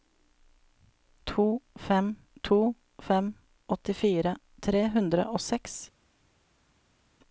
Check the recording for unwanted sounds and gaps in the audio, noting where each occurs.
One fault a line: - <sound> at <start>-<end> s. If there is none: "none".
none